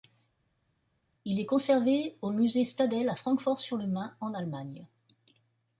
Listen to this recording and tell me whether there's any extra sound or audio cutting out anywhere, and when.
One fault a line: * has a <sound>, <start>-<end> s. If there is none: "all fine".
all fine